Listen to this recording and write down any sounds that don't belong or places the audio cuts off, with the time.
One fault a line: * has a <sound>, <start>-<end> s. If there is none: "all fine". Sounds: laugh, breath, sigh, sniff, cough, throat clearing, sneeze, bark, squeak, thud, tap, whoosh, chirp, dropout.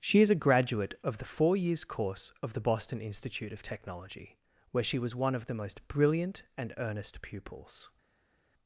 all fine